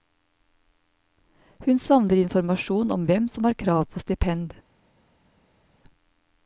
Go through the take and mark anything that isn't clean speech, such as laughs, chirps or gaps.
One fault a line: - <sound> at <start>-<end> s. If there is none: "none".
none